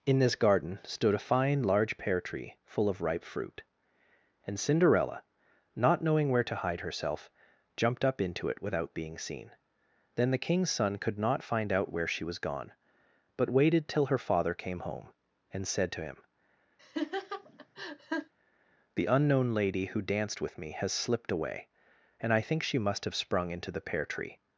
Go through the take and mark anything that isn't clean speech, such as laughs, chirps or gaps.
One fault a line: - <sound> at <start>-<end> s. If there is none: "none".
- laugh at 16.8-18.3 s